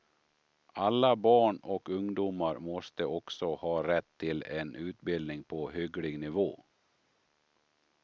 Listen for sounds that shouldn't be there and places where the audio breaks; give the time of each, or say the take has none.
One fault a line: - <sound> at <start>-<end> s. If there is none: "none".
none